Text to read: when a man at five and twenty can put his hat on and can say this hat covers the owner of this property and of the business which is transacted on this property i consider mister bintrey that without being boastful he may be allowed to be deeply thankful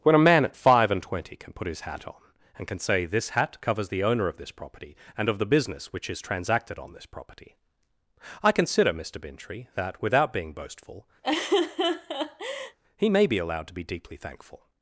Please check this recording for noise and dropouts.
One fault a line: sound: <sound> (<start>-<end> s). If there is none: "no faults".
sound: laugh (11.2-12.8 s)